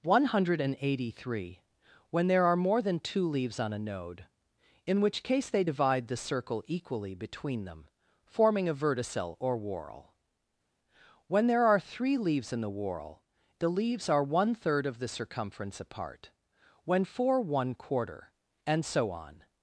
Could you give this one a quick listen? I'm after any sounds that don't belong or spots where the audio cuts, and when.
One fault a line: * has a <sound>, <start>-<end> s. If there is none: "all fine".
all fine